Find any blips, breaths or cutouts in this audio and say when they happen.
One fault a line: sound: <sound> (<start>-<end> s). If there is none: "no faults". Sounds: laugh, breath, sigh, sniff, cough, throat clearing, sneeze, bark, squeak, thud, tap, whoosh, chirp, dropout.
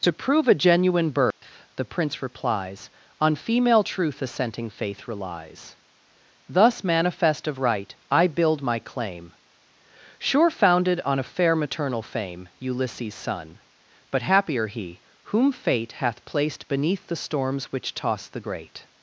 sound: dropout (1.3-1.4 s)